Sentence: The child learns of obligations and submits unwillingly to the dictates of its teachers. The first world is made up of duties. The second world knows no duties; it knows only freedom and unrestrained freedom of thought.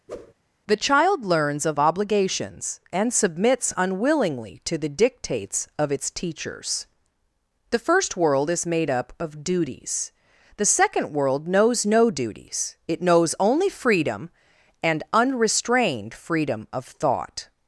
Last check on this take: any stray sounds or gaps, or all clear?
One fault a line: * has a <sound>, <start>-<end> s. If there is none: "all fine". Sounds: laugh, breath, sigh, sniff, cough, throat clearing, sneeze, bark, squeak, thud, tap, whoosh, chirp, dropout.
* has a whoosh, 0.1-0.3 s